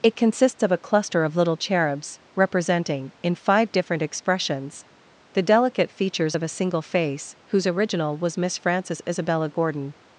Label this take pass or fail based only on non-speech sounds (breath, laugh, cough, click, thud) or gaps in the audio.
pass